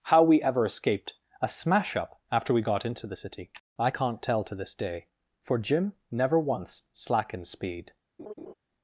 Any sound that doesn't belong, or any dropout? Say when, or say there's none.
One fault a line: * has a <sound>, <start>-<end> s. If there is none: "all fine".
* has a laugh, 8.2-8.5 s